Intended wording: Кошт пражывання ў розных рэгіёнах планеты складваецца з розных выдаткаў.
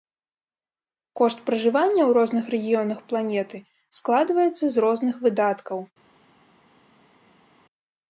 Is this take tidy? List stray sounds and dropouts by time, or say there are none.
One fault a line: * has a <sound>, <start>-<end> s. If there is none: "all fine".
all fine